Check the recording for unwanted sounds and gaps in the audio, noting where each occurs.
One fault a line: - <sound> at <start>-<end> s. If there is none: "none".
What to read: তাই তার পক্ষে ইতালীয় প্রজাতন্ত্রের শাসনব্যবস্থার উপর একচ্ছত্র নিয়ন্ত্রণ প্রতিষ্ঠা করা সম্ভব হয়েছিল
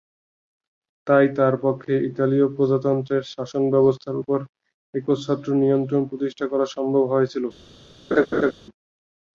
- laugh at 8.1-8.5 s